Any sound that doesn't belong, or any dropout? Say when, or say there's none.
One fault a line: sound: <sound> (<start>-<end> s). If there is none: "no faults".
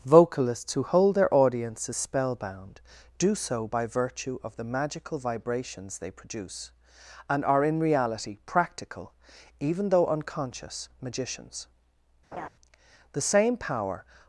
sound: laugh (12.3-12.5 s)